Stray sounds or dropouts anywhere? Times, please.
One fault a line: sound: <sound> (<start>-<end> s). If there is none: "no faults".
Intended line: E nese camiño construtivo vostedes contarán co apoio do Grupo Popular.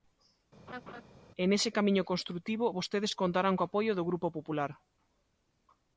sound: laugh (0.7-1.0 s)